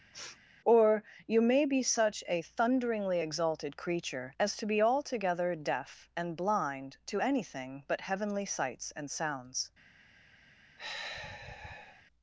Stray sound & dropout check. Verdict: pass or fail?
fail